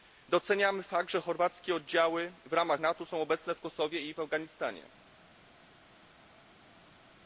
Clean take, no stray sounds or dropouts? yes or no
yes